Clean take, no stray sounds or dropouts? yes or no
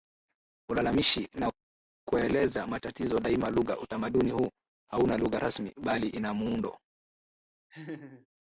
no